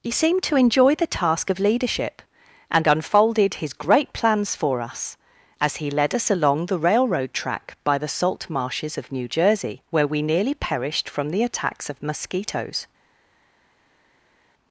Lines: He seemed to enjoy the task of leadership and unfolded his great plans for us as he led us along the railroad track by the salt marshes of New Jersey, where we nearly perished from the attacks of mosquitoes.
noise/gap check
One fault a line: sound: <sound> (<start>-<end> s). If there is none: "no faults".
no faults